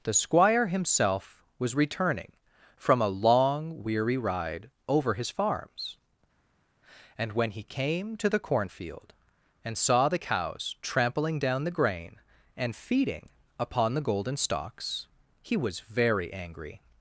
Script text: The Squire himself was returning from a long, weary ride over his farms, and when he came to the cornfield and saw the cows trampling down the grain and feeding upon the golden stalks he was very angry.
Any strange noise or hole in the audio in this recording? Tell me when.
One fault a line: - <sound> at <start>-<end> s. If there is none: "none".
none